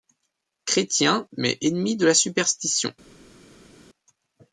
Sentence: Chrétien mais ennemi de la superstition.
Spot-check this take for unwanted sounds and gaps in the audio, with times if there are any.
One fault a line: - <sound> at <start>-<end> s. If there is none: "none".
none